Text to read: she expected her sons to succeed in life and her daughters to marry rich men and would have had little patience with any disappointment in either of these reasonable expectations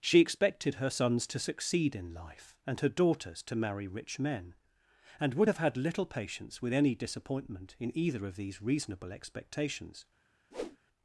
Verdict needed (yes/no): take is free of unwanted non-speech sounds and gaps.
no